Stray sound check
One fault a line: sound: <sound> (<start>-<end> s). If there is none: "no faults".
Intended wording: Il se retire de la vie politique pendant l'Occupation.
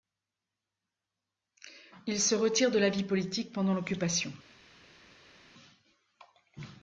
no faults